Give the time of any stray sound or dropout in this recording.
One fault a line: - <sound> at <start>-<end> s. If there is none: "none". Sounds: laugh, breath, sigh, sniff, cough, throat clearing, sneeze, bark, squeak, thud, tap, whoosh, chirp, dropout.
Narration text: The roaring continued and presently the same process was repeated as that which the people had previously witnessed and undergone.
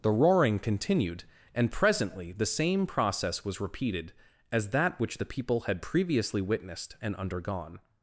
none